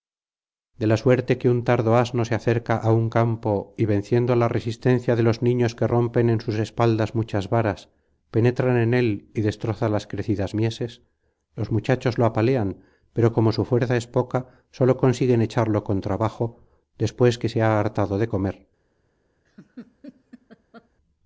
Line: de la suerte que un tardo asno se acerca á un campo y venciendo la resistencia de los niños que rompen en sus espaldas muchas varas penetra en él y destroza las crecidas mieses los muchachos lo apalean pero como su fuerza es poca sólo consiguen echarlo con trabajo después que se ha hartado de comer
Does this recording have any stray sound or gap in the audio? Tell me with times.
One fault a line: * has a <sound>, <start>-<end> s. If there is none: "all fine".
* has a laugh, 19.4-20.9 s